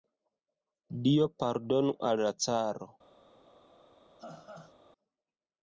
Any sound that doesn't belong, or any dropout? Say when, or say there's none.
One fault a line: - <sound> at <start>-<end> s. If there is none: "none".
- laugh at 4.2-4.7 s